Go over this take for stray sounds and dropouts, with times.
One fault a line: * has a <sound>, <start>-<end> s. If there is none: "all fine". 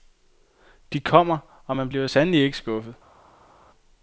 all fine